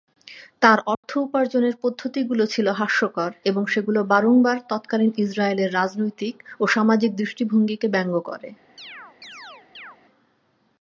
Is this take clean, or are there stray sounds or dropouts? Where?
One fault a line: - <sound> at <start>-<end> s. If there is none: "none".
- dropout at 0.9-1.0 s
- chirp at 8.8-10.0 s